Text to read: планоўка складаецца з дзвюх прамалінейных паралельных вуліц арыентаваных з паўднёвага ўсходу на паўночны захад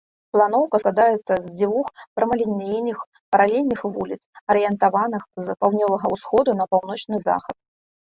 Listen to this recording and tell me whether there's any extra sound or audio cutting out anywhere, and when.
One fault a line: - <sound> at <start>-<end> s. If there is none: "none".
none